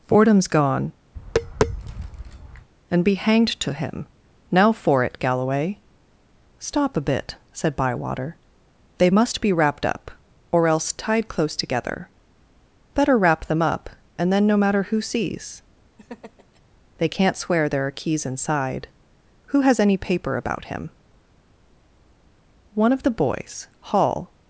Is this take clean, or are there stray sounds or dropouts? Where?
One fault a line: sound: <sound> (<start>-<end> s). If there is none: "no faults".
sound: tap (1.1-2.7 s)
sound: laugh (16.0-16.6 s)